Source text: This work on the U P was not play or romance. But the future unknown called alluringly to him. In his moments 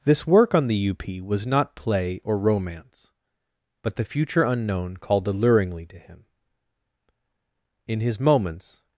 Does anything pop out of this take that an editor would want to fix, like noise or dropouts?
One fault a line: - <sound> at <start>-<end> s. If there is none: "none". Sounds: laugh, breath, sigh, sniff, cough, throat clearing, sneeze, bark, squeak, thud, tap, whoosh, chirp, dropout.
none